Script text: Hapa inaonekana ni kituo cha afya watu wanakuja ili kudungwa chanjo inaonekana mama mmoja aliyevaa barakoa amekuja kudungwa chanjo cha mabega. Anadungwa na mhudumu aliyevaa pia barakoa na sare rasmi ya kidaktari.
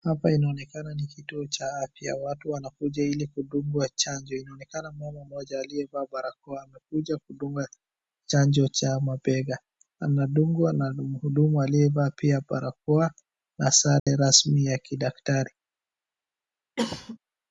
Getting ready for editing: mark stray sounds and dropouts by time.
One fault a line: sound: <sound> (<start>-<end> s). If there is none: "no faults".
sound: dropout (14.0-14.1 s)
sound: cough (16.8-17.2 s)